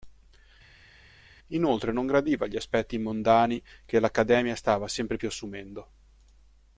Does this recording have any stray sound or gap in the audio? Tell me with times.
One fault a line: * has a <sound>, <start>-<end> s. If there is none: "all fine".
all fine